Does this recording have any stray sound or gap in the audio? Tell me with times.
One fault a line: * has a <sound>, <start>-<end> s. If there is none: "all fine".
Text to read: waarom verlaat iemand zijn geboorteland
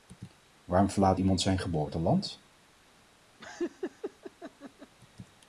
* has a laugh, 3.4-4.9 s